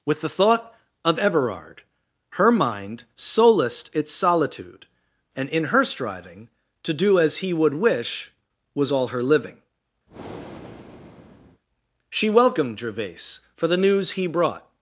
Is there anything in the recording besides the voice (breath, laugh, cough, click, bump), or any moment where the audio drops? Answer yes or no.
yes